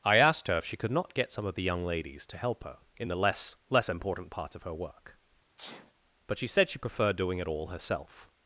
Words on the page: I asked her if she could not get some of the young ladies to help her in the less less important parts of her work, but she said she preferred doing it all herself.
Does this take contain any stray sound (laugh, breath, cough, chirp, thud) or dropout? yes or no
yes